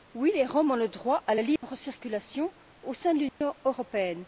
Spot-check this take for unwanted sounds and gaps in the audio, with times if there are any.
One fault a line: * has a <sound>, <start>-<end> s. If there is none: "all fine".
* has a dropout, 1.6-1.6 s
* has a dropout, 3.3-3.4 s